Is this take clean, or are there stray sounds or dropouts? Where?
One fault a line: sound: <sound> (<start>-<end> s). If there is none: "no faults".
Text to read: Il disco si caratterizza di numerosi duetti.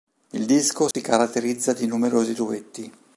sound: dropout (0.9-0.9 s)